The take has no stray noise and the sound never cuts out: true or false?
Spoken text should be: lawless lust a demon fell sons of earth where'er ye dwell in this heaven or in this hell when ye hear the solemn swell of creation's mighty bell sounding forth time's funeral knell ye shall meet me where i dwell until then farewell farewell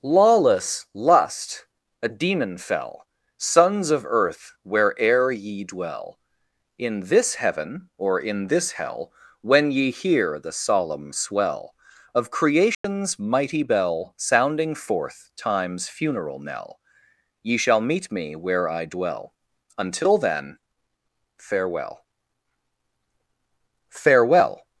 false